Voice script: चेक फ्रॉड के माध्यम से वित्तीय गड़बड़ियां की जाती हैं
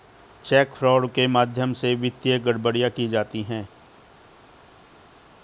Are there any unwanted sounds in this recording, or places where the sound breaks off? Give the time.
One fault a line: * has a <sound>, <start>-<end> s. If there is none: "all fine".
all fine